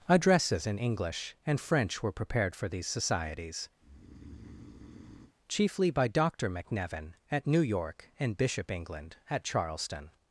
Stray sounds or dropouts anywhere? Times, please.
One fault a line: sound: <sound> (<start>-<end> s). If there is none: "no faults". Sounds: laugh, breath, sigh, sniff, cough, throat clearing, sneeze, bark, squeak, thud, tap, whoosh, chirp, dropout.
sound: breath (3.8-5.3 s)